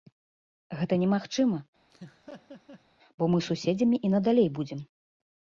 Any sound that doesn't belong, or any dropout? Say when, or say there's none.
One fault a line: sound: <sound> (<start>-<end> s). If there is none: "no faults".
sound: laugh (1.9-2.8 s)